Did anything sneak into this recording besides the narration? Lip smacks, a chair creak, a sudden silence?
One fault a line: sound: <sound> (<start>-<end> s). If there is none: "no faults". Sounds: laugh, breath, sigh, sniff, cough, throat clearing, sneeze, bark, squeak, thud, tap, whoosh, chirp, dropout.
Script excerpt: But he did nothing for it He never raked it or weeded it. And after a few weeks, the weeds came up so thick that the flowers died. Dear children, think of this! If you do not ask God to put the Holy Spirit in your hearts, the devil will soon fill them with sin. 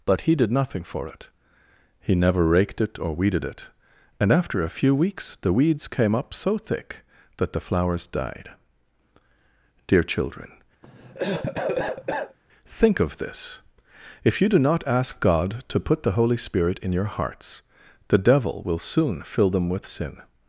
sound: cough (10.8-12.4 s)